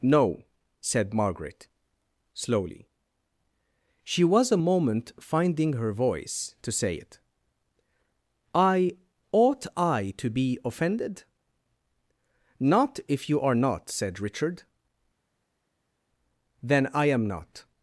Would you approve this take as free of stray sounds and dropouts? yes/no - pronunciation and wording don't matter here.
yes